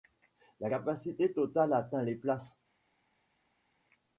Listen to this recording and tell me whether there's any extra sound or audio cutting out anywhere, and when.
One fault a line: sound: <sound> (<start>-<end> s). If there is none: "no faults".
no faults